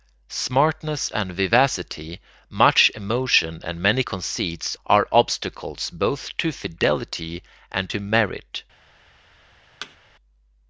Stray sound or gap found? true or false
true